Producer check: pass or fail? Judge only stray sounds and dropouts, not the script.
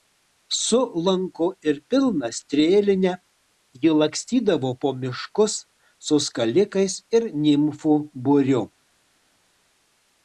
pass